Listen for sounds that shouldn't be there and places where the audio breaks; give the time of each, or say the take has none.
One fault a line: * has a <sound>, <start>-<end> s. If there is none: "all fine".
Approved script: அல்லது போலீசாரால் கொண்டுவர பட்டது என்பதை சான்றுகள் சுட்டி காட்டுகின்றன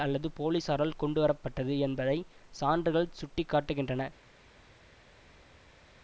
all fine